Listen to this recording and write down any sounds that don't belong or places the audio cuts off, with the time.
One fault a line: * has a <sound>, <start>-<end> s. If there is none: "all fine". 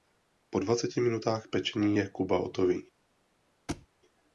* has a thud, 3.7-3.9 s